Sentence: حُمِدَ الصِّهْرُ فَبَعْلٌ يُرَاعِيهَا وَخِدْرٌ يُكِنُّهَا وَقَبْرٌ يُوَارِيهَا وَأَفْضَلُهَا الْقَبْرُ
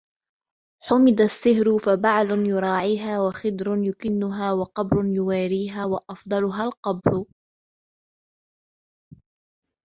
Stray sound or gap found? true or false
false